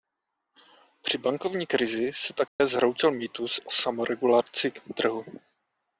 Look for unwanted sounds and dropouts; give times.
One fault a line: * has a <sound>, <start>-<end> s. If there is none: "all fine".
* has a dropout, 2.5-2.6 s